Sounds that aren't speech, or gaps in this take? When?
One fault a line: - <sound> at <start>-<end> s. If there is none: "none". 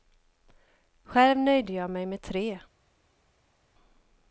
none